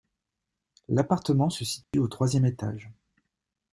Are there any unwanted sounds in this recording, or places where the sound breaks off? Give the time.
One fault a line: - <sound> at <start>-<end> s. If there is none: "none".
- dropout at 1.8-1.9 s